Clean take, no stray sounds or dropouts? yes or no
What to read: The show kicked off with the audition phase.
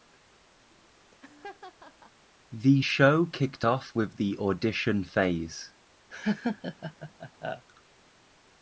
no